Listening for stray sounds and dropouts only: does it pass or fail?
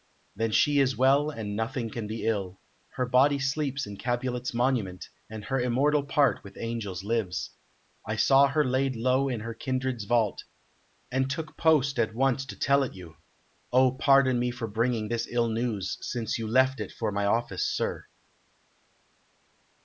pass